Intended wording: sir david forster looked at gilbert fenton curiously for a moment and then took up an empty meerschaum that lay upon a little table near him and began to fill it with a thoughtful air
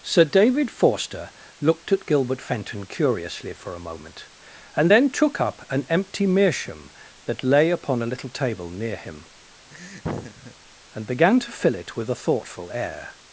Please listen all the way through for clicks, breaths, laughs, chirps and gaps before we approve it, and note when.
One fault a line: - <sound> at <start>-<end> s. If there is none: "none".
- laugh at 9.7-10.5 s